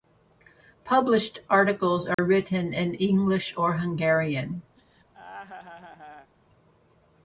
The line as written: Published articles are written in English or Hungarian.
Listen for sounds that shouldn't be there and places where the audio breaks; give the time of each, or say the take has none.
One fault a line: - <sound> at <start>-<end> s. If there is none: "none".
- dropout at 2.1-2.2 s
- laugh at 4.8-6.3 s